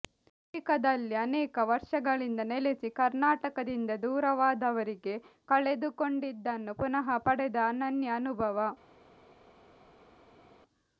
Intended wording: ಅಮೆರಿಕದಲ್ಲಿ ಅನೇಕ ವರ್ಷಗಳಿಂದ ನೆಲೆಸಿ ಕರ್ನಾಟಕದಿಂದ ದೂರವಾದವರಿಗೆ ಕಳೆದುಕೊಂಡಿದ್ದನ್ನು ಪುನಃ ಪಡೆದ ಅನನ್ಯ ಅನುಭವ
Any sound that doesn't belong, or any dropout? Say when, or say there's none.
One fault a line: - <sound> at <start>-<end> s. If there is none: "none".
none